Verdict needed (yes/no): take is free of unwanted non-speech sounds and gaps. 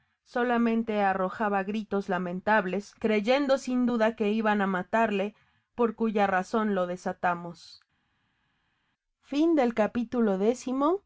yes